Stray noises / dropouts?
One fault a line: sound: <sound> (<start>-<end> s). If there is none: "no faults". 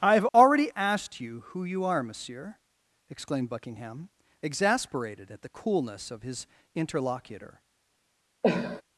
sound: dropout (0.3-0.3 s)
sound: cough (8.4-8.8 s)